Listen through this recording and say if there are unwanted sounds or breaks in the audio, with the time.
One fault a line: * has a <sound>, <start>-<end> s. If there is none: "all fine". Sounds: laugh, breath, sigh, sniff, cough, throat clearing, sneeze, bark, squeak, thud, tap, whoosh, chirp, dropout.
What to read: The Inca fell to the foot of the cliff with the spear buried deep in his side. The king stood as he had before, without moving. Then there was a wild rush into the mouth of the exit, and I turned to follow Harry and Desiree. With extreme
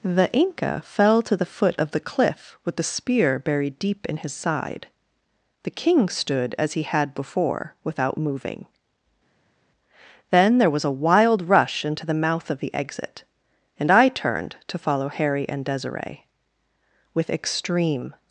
all fine